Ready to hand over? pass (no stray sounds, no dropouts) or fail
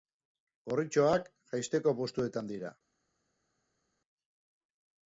pass